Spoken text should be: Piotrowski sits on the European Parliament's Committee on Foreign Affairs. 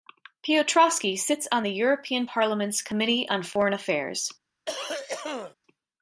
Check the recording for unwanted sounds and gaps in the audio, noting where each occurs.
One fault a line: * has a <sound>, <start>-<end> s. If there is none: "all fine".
* has a cough, 4.7-5.5 s